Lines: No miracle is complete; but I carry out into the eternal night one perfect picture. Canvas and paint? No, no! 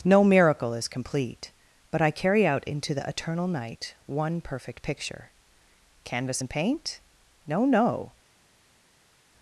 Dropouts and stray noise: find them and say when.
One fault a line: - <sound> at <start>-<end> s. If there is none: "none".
none